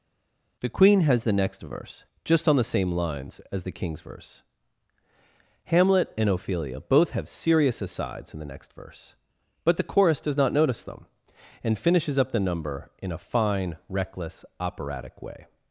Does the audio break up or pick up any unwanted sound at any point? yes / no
no